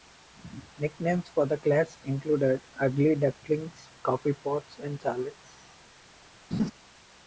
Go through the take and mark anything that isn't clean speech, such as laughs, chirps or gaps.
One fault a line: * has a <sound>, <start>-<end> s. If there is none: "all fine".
* has a laugh, 6.5-6.7 s